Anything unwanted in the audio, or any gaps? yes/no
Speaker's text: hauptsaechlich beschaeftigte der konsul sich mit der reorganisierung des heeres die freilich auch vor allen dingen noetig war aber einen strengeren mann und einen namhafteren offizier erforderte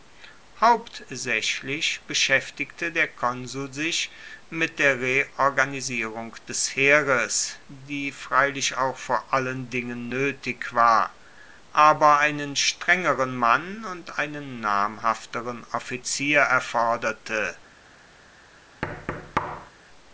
yes